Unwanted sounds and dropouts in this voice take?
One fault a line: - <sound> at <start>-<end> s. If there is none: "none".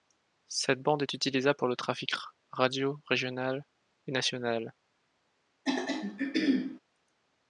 - throat clearing at 5.7-6.8 s